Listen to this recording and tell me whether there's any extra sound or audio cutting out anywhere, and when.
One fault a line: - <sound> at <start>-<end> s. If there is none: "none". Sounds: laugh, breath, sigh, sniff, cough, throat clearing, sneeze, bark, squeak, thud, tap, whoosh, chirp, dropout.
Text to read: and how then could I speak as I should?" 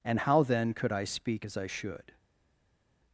none